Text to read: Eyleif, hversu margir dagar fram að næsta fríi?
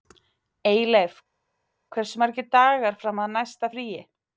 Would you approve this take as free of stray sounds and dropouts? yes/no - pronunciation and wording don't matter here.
yes